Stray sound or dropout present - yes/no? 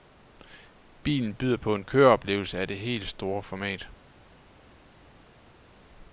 no